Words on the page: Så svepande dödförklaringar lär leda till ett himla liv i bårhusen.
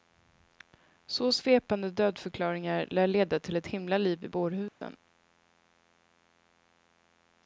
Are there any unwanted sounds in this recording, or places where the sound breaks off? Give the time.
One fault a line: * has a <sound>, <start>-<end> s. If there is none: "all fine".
* has a dropout, 4.7-4.8 s